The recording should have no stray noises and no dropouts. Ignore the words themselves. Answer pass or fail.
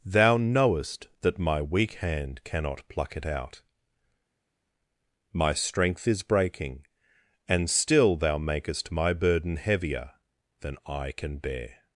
pass